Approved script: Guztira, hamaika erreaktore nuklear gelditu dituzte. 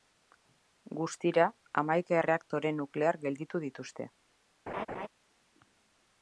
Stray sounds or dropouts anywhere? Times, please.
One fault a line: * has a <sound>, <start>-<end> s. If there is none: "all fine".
* has a laugh, 4.7-5.1 s